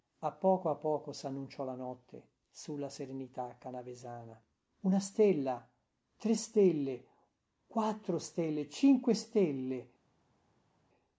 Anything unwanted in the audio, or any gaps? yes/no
no